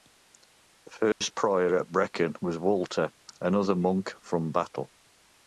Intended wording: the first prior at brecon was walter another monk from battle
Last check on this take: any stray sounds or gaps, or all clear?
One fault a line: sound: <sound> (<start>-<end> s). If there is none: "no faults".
sound: dropout (1.1-1.2 s)